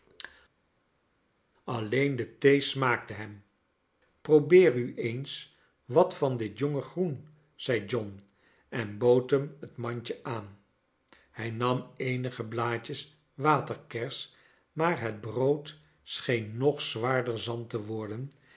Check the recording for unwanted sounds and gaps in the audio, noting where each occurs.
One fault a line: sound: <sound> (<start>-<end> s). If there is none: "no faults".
no faults